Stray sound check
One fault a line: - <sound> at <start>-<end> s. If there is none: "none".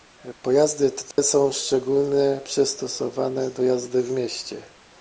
- dropout at 1.1-1.2 s